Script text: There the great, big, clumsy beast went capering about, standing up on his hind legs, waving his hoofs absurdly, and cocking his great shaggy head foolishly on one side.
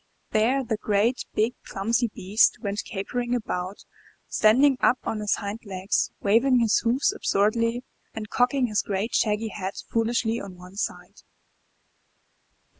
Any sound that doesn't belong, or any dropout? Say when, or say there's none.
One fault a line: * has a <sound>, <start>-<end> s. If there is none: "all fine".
all fine